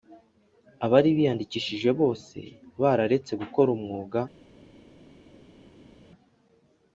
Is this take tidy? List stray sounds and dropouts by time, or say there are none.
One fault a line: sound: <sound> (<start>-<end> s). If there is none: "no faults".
no faults